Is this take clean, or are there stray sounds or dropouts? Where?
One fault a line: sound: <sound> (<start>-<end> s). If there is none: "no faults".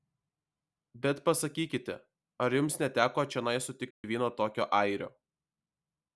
sound: dropout (3.9-4.0 s)